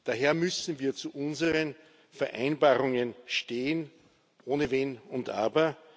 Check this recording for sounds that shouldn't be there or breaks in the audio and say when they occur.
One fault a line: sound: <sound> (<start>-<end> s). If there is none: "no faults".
no faults